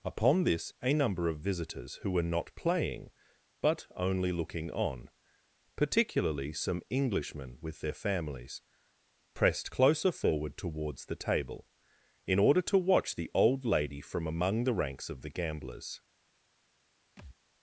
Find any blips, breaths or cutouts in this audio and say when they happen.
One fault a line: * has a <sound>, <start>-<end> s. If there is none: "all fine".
* has a thud, 17.2-17.4 s